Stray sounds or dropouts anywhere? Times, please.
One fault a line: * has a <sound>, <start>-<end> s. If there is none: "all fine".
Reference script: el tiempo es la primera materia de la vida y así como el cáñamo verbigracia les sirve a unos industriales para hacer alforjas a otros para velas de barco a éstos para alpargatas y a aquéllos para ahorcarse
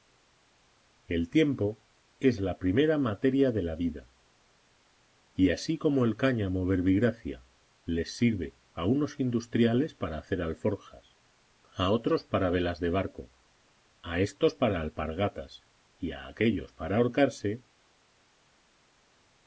all fine